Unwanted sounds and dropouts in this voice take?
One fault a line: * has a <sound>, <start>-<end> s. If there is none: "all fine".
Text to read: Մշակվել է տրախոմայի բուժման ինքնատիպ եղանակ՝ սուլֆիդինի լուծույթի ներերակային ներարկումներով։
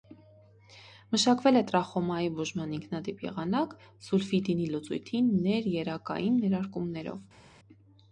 all fine